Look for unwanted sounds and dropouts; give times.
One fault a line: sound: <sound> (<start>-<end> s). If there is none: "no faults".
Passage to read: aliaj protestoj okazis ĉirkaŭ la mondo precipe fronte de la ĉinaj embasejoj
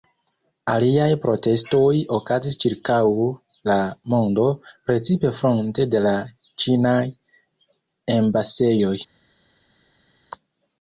no faults